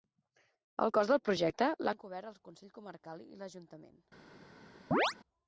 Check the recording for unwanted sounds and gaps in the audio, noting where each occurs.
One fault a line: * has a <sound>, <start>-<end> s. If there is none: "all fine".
* has a chirp, 4.9-5.1 s